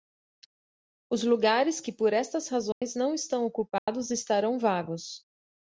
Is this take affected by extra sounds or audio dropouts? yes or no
yes